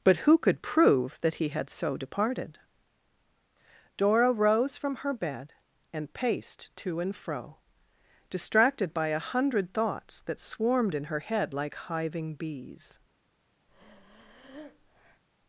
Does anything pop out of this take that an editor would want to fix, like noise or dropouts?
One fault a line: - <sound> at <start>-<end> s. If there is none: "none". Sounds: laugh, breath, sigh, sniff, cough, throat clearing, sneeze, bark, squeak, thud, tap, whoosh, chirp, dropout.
- breath at 13.7-15.2 s